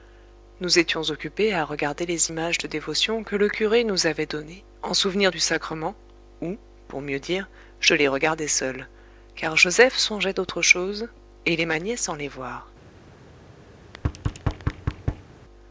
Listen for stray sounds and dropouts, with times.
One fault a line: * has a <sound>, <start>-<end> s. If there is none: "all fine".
* has a thud, 13.8-15.3 s